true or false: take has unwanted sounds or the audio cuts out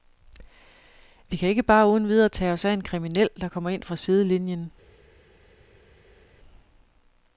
false